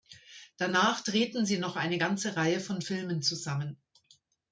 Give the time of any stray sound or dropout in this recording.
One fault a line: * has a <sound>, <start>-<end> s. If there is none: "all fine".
all fine